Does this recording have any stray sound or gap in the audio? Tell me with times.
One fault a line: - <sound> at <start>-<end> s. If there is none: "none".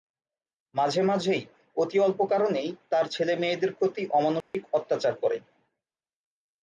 - dropout at 4.4-4.5 s